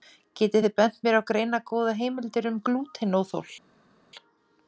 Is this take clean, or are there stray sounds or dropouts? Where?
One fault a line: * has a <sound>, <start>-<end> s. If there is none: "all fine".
all fine